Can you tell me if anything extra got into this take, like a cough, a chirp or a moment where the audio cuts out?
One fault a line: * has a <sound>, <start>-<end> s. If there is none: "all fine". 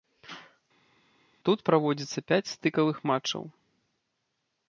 all fine